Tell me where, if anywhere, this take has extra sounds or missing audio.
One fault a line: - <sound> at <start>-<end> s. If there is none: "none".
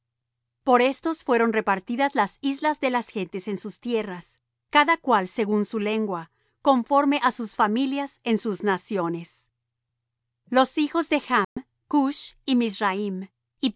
- dropout at 11.4-11.6 s